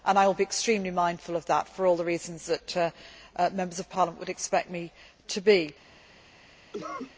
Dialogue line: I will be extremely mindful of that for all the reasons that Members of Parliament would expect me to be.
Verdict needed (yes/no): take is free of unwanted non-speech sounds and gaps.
no